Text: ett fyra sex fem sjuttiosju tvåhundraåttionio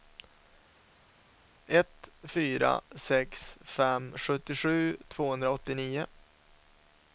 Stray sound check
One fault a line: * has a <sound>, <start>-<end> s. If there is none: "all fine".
all fine